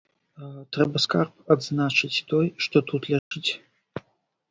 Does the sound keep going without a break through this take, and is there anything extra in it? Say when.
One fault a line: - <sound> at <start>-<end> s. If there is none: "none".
- dropout at 3.2-3.3 s